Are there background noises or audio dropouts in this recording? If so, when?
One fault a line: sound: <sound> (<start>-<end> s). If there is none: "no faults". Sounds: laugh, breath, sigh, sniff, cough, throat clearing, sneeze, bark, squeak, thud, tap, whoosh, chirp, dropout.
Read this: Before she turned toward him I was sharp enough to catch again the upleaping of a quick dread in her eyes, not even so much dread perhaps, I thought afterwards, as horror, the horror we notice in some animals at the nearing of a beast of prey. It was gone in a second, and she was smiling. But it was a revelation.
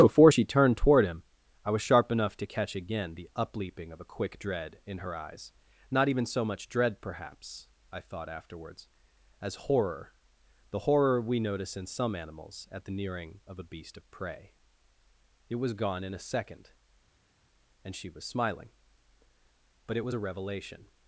no faults